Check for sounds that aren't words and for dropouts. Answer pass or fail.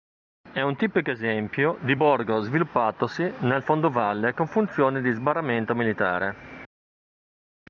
pass